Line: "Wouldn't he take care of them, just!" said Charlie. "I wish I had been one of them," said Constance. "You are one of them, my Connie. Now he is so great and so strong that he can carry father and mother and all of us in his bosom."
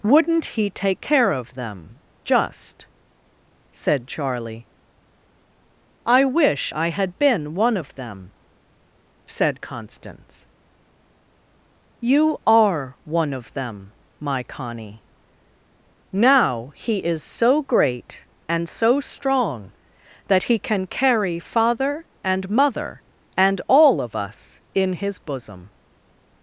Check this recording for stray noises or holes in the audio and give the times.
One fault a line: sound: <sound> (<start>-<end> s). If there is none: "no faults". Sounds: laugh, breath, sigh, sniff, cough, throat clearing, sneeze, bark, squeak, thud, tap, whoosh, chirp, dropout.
no faults